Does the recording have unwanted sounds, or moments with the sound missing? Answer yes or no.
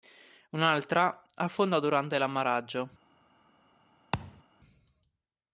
yes